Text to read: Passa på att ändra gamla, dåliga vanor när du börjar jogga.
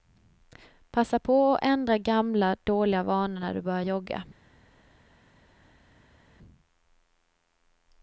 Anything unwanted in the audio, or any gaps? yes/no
no